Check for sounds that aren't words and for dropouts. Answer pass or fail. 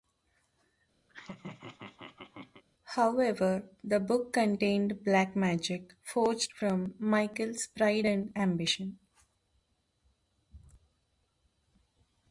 fail